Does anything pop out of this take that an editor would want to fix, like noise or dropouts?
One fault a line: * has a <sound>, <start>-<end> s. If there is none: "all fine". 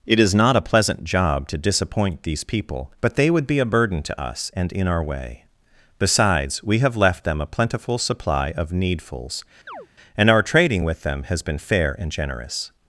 * has a chirp, 9.7-9.9 s